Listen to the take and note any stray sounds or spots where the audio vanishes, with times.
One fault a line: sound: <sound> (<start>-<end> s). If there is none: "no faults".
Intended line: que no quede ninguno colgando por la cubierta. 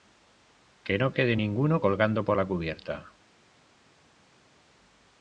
no faults